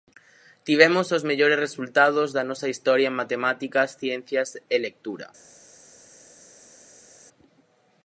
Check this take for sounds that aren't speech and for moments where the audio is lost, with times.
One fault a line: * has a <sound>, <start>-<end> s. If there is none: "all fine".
all fine